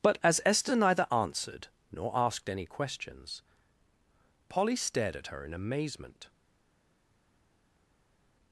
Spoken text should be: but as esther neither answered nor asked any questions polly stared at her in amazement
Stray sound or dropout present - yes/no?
no